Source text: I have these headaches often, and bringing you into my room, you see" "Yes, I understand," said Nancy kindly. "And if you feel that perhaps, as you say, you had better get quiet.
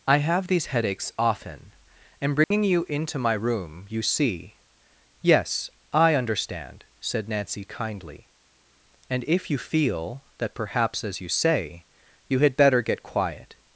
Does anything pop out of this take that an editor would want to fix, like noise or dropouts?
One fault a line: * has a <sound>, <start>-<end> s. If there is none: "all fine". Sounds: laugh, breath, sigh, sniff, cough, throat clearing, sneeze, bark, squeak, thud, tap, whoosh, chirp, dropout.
* has a dropout, 2.4-2.5 s